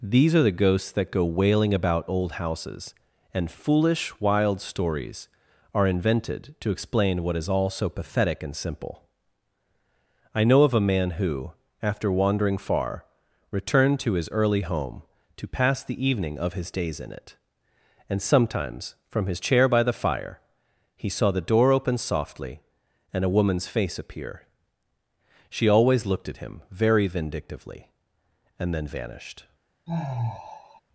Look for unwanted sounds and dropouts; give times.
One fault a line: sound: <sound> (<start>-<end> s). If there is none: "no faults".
sound: sigh (29.9-30.8 s)